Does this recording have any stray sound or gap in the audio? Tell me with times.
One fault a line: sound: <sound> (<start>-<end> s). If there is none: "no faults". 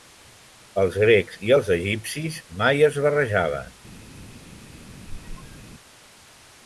sound: squeak (5.1-5.7 s)